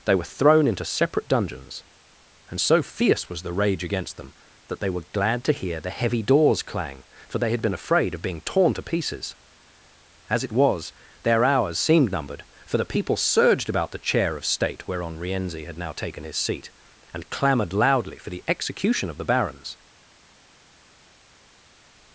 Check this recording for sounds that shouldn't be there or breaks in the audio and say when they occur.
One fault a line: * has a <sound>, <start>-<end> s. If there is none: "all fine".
all fine